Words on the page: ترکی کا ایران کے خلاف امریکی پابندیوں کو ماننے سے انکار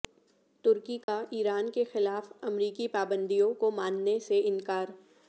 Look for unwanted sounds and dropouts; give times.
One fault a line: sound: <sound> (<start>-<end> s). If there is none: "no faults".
sound: dropout (1.0-1.1 s)